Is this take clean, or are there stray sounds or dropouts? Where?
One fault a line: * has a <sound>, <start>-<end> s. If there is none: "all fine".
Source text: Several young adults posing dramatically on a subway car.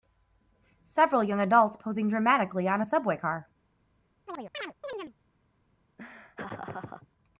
* has a chirp, 4.3-5.1 s
* has a laugh, 6.0-7.1 s